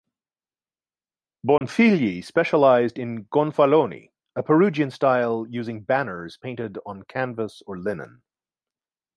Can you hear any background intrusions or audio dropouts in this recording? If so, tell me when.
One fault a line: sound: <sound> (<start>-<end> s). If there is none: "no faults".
sound: dropout (1.6-1.6 s)